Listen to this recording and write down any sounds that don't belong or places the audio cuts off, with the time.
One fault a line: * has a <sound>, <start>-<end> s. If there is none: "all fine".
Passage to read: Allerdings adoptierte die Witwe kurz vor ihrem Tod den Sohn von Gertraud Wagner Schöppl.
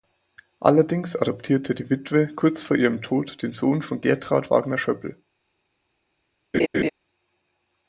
* has a laugh, 6.5-6.9 s